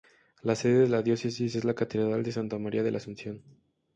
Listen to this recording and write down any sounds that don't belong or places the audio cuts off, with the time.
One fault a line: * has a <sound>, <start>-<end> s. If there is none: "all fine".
all fine